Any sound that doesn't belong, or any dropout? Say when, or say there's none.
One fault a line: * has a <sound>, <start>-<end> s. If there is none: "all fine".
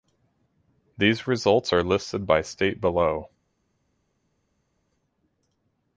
all fine